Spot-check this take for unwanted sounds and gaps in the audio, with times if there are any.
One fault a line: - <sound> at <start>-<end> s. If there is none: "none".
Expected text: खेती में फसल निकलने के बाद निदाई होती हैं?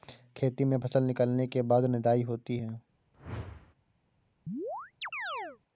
- whoosh at 3.1-3.7 s
- chirp at 4.5-5.6 s